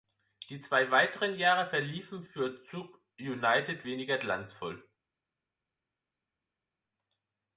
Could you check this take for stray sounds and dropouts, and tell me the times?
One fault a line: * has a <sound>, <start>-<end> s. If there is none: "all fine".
all fine